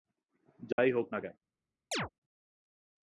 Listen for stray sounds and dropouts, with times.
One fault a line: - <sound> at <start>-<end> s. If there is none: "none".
- dropout at 0.7-0.8 s
- chirp at 1.9-2.1 s